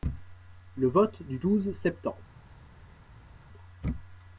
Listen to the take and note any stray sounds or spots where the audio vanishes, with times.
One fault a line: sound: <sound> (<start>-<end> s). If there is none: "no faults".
no faults